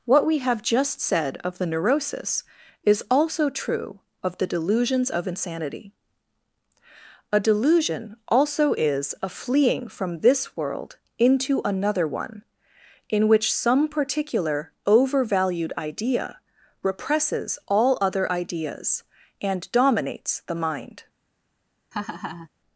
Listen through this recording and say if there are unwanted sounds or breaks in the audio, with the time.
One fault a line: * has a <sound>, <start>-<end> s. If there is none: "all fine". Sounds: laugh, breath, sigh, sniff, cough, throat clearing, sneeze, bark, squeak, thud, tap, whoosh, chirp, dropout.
* has a laugh, 21.9-22.5 s